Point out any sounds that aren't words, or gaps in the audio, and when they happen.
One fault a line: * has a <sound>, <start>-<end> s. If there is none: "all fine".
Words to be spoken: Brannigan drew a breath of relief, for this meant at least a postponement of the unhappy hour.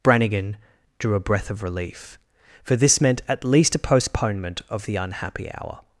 all fine